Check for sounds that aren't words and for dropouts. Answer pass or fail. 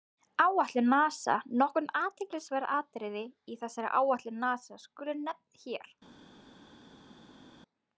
pass